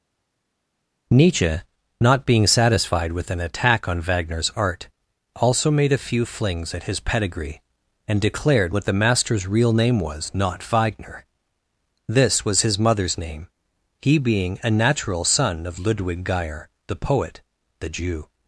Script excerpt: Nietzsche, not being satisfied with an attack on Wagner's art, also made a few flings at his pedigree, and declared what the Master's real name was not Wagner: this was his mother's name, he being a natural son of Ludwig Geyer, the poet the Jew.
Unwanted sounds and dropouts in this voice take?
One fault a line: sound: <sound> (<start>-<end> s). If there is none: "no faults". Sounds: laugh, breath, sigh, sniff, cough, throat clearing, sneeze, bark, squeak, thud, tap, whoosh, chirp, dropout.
no faults